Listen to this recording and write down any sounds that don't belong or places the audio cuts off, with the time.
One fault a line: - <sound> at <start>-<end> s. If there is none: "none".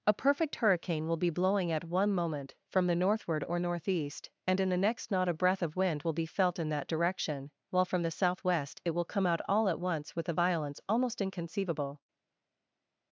none